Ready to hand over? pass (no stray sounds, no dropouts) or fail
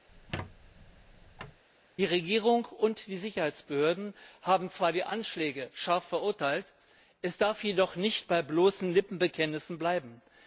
fail